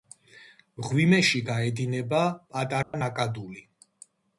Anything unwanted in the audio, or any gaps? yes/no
yes